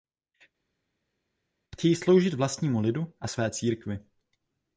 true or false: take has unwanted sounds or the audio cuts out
false